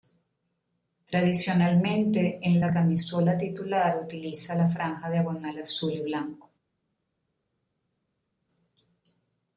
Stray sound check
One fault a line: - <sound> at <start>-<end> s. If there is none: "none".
none